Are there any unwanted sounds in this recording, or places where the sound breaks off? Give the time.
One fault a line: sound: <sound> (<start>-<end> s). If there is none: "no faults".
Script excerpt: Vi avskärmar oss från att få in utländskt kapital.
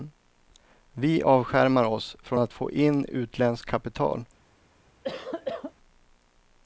sound: cough (5.0-5.7 s)